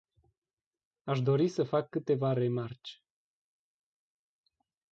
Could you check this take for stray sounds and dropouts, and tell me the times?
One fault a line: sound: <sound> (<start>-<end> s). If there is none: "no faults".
no faults